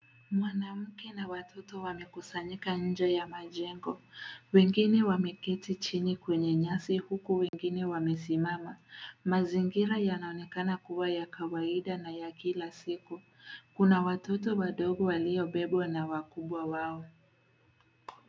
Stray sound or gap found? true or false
true